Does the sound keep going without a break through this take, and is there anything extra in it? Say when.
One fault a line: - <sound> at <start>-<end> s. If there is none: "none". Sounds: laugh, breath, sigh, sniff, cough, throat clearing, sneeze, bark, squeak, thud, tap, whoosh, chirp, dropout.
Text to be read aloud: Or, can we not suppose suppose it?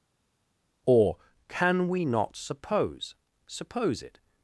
none